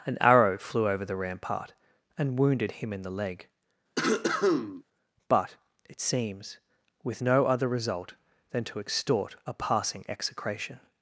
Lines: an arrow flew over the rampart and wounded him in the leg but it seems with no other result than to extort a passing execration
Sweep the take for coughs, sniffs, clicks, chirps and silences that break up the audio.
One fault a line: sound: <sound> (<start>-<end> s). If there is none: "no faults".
sound: cough (4.0-4.8 s)